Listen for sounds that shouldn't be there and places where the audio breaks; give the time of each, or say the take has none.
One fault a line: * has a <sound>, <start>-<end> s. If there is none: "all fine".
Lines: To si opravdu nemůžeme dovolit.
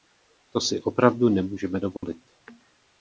* has a dropout, 2.0-2.0 s